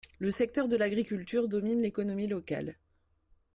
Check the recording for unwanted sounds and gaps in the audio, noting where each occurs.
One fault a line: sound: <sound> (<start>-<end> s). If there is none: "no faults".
no faults